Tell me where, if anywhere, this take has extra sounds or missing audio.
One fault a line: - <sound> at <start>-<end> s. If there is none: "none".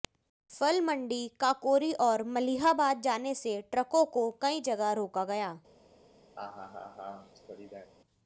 - laugh at 6.4-7.9 s